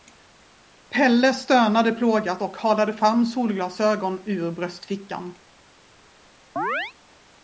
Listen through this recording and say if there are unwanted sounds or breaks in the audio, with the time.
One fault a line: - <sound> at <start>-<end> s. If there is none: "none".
- chirp at 6.6-6.9 s